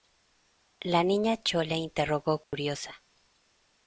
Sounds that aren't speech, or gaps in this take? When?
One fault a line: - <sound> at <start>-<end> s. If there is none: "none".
- dropout at 2.4-2.5 s